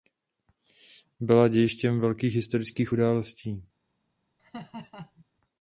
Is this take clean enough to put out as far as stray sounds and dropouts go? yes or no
no